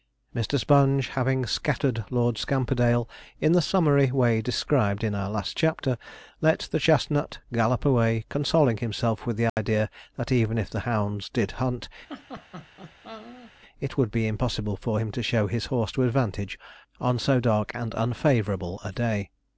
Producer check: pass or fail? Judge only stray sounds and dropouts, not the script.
fail